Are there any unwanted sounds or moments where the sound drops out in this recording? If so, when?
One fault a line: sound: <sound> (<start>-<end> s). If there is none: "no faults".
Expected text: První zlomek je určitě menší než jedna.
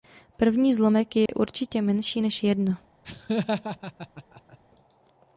sound: dropout (1.3-1.3 s)
sound: laugh (3.0-4.6 s)